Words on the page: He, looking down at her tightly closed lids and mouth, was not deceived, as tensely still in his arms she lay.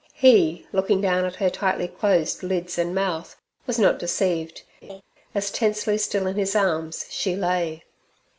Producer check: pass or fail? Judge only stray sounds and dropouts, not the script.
fail